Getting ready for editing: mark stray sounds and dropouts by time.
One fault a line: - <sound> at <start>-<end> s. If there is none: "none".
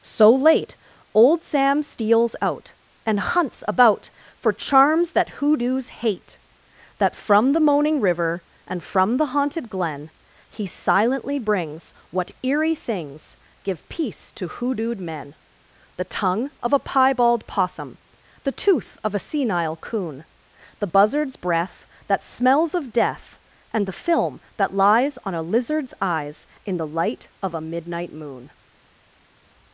none